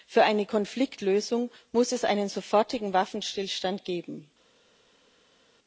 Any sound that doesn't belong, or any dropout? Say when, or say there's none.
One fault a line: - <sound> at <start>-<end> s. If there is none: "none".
none